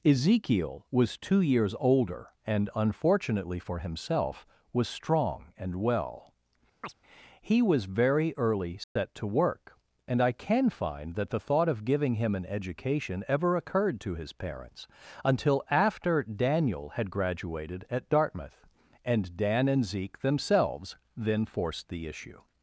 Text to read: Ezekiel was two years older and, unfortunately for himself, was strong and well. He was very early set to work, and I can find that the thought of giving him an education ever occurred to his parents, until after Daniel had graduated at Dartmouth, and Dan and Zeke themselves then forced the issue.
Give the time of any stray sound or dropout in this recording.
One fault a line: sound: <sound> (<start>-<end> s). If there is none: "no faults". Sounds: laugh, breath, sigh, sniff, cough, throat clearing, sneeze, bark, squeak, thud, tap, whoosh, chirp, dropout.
sound: chirp (6.8-6.9 s)
sound: dropout (8.8-9.0 s)